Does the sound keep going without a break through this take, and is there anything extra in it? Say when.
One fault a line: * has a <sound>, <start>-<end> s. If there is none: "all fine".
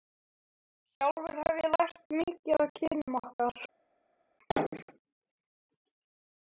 all fine